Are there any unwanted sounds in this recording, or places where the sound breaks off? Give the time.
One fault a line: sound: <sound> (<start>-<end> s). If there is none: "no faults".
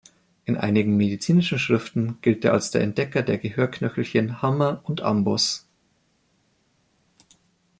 no faults